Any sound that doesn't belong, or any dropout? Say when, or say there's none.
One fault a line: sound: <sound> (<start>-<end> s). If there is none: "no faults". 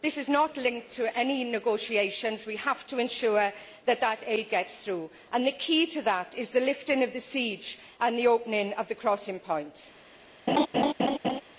sound: laugh (10.5-11.4 s)